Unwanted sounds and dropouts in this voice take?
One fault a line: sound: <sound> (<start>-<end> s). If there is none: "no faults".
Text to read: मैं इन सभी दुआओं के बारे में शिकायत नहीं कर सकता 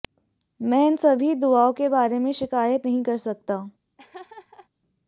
sound: laugh (4.0-4.7 s)